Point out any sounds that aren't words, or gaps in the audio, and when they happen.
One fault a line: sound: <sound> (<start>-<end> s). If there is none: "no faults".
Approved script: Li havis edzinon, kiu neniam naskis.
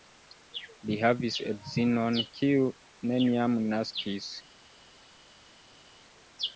no faults